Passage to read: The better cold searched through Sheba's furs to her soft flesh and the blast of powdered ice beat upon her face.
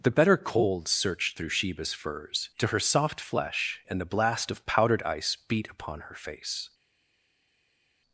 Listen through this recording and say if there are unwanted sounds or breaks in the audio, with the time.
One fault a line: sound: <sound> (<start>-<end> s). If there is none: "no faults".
no faults